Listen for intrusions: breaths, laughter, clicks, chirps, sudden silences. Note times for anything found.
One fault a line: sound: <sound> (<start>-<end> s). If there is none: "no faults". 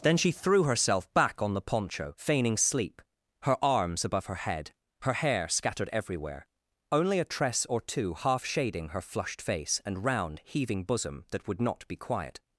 no faults